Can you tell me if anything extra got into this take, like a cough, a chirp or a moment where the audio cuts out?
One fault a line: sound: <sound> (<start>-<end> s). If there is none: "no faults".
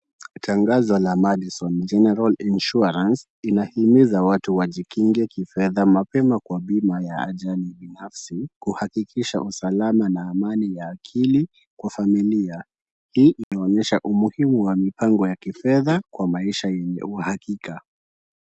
sound: dropout (13.4-13.5 s)